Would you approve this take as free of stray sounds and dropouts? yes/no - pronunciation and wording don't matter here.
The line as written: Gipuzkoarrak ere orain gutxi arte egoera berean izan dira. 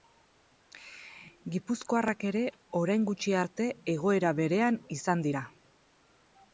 yes